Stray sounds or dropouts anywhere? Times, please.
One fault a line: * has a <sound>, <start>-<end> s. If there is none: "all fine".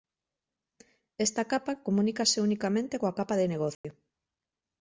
* has a dropout, 3.7-3.8 s